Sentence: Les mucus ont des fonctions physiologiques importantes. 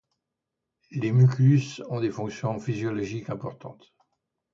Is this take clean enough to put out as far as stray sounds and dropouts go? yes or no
yes